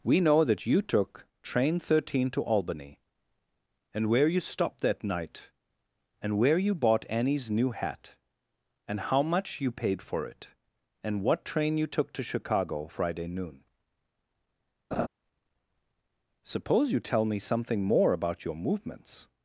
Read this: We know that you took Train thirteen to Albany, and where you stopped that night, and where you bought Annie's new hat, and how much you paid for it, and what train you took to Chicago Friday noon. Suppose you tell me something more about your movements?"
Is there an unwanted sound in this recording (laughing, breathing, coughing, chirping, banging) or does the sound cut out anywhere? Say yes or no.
yes